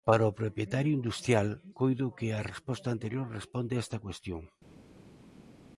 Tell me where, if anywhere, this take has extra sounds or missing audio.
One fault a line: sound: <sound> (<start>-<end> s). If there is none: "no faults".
no faults